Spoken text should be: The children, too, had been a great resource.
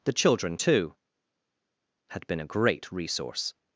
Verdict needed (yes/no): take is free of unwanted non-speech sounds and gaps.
yes